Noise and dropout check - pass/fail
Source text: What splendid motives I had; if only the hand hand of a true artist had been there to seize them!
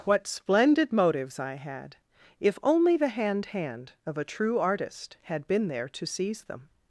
pass